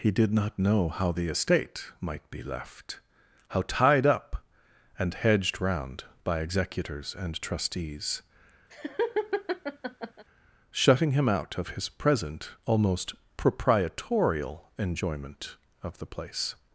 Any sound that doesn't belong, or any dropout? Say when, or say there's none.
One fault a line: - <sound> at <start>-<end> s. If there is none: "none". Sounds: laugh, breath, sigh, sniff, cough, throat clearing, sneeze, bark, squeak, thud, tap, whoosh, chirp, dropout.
- laugh at 8.7-10.2 s